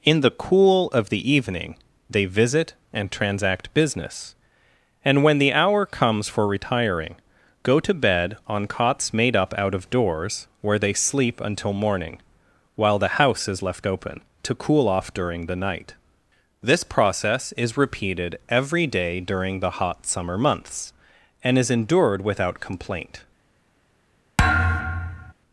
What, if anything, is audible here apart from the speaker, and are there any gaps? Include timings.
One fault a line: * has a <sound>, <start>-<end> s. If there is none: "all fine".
* has a thud, 24.4-25.3 s